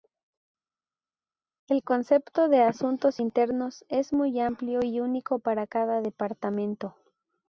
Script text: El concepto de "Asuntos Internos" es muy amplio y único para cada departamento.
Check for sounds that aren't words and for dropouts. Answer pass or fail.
pass